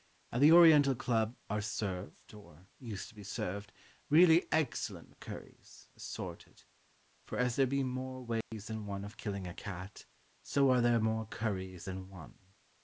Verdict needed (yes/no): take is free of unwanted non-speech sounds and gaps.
no